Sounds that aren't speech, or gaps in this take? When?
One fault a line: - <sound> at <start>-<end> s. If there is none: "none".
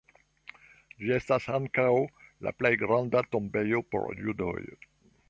none